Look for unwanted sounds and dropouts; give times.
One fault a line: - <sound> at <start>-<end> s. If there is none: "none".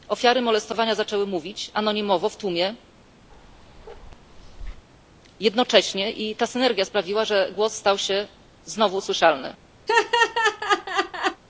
- bark at 3.3-4.9 s
- laugh at 9.9-11.4 s